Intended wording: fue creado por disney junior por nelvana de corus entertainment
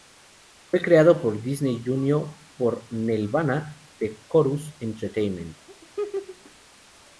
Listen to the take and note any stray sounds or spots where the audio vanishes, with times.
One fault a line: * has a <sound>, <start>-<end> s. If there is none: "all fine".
* has a laugh, 5.7-6.5 s